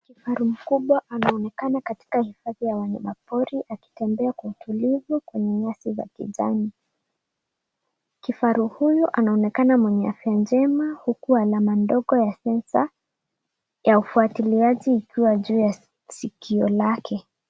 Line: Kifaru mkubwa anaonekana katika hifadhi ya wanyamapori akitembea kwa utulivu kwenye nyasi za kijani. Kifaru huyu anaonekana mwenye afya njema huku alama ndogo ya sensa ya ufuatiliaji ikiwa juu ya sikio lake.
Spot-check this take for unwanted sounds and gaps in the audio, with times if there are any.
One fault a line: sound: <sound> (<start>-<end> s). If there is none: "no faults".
no faults